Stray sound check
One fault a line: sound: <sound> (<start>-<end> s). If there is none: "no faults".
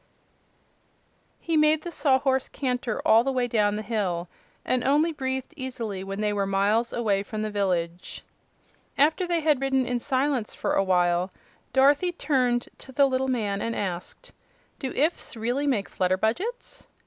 no faults